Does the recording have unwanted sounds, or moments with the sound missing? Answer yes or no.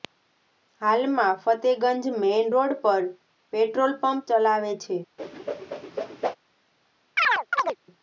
yes